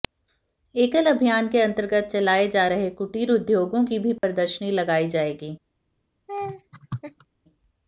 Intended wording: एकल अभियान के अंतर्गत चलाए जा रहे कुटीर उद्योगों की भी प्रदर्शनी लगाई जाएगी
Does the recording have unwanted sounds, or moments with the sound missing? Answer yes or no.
yes